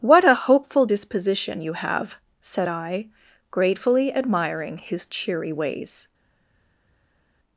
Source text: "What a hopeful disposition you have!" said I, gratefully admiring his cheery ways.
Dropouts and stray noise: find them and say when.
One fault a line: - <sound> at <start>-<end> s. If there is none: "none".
none